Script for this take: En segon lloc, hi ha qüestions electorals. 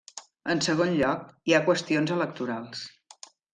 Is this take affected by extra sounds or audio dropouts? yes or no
no